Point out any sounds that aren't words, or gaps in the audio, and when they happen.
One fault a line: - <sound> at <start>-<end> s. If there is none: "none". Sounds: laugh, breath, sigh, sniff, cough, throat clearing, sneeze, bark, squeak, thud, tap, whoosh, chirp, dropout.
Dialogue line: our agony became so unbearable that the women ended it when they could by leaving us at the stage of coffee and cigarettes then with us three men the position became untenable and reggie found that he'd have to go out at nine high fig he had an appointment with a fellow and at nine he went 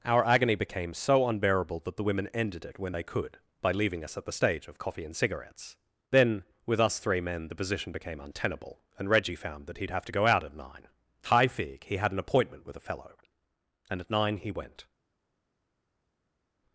none